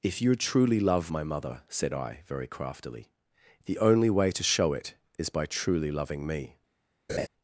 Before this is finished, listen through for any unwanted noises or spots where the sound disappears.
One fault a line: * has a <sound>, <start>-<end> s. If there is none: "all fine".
* has a laugh, 7.1-7.3 s